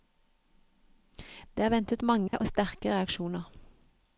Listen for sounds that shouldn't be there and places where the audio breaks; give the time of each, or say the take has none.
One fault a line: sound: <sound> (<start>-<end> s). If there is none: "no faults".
sound: dropout (2.3-2.3 s)